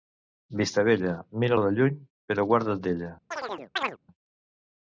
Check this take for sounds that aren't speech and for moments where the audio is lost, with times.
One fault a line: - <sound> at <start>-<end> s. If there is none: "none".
- chirp at 3.3-4.0 s